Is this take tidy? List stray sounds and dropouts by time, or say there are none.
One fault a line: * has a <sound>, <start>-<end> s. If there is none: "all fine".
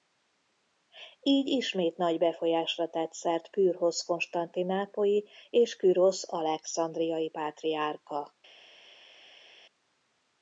all fine